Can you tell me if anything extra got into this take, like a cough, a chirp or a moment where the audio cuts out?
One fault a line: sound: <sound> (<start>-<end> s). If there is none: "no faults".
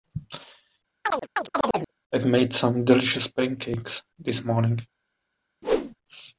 sound: chirp (1.0-1.9 s)
sound: whoosh (5.6-6.0 s)